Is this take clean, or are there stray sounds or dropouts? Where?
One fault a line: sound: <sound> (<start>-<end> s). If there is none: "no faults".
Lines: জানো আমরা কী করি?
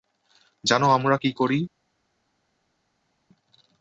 no faults